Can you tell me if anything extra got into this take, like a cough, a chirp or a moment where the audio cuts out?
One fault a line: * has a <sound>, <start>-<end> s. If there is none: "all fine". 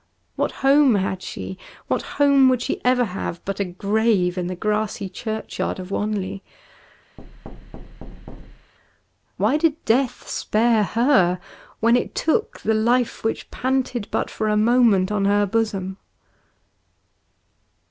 * has a thud, 7.2-8.7 s